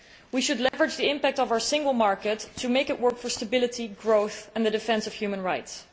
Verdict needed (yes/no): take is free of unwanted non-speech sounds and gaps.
no